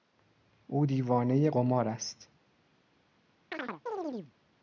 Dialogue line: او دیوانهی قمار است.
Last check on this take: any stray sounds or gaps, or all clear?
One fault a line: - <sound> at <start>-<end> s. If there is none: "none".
- chirp at 3.5-4.3 s